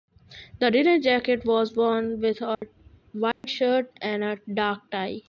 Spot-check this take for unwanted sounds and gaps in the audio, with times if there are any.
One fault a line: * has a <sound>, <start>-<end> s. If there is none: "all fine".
* has a dropout, 2.5-2.6 s
* has a dropout, 3.3-3.4 s